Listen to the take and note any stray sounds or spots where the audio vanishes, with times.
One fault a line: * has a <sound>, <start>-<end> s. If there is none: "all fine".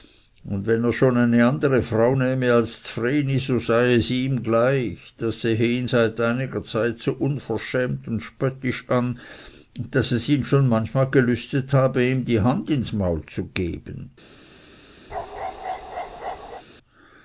* has a bark, 15.1-16.6 s